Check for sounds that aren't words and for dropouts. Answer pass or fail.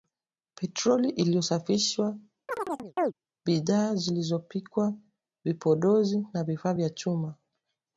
fail